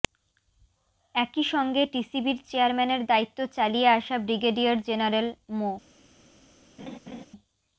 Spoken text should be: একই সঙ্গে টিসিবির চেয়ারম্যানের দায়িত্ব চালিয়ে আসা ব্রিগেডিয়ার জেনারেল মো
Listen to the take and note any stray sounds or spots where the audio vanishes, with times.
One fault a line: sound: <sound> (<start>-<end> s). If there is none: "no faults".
sound: laugh (6.8-7.3 s)